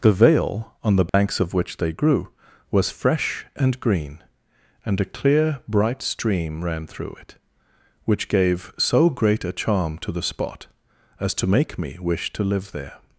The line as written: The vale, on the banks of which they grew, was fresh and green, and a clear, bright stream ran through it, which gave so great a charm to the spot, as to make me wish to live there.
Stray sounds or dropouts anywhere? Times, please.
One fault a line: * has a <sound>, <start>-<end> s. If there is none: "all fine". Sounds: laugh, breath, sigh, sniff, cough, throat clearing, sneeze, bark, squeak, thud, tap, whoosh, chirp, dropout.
* has a dropout, 1.1-1.1 s